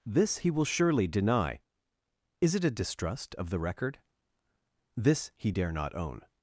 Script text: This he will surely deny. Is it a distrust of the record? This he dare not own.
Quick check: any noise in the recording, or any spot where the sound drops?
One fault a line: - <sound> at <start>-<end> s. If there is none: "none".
none